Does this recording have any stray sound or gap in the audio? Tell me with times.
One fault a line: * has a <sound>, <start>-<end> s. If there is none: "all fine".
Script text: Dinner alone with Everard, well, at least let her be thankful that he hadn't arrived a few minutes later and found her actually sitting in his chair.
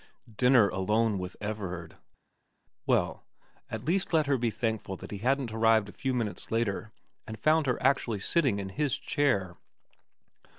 all fine